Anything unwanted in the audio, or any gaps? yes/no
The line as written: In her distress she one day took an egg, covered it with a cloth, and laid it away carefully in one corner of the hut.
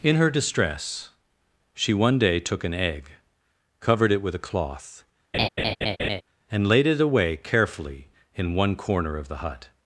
yes